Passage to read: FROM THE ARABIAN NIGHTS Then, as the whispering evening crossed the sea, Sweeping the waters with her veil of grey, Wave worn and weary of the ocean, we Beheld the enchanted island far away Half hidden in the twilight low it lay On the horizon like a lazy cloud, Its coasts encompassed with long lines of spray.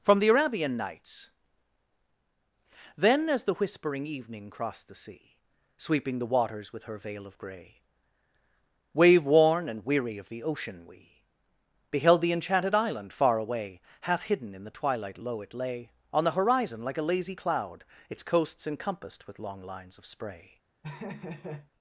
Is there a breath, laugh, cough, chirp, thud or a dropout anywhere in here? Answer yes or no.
yes